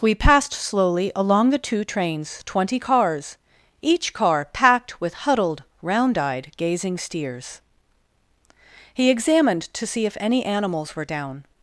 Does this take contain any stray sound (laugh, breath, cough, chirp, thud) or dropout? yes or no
no